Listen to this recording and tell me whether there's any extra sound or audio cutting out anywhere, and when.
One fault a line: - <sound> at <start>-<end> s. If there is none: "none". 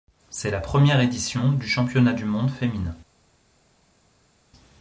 none